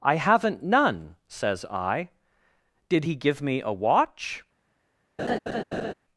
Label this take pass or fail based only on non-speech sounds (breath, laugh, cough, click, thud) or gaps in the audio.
fail